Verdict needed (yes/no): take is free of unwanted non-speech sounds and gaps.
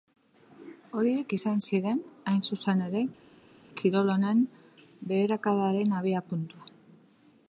yes